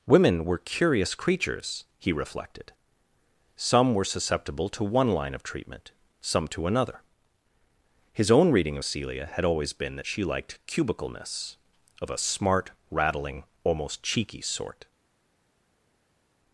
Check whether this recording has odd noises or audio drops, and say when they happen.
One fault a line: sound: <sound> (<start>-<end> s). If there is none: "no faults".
no faults